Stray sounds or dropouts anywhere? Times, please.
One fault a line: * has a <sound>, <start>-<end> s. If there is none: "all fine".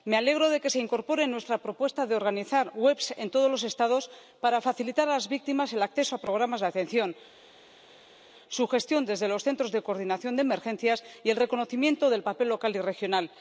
all fine